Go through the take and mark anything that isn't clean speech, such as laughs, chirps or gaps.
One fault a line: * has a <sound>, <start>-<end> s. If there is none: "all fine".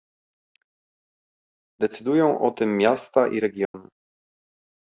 * has a dropout, 3.6-3.7 s